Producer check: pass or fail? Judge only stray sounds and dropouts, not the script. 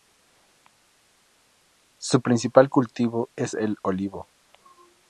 pass